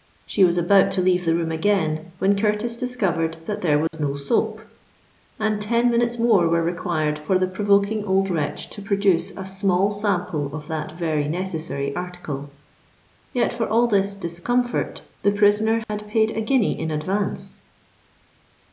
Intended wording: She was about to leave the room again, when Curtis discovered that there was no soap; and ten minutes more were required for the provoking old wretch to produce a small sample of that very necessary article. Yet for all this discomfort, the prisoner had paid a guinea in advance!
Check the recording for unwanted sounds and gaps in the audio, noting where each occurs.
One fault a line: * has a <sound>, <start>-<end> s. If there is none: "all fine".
* has a dropout, 3.9-3.9 s
* has a dropout, 15.8-15.9 s